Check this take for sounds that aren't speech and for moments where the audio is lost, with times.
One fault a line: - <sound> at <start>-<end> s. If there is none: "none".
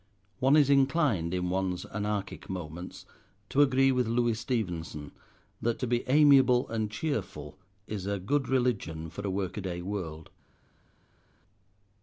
none